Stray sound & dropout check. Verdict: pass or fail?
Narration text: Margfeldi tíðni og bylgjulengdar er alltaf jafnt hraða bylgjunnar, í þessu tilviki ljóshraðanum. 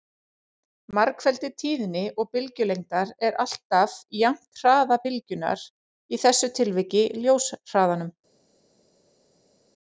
pass